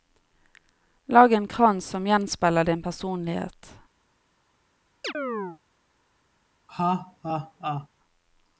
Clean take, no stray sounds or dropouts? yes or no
no